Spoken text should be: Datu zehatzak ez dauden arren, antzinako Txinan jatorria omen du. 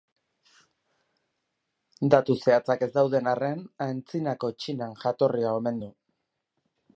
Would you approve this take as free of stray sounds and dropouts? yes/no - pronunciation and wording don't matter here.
yes